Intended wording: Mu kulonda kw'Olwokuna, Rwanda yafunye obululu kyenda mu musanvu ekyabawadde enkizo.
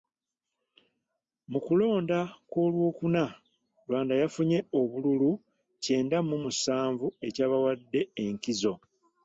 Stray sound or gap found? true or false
false